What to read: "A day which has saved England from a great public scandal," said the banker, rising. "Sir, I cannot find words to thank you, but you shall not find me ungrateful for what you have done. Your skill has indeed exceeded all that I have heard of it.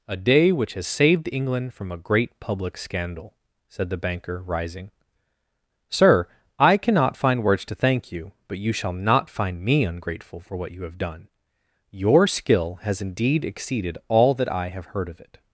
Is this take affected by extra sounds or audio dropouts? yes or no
no